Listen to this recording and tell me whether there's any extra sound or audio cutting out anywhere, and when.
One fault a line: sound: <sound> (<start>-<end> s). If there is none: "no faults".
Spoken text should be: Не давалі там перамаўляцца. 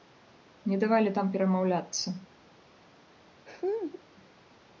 sound: laugh (3.5-4.0 s)